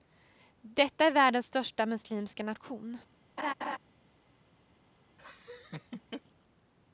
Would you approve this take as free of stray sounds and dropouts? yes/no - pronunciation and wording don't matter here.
no